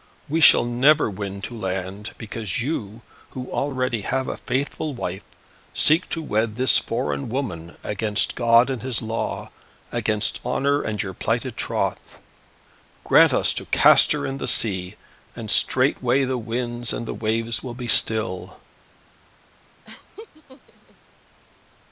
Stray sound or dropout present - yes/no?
yes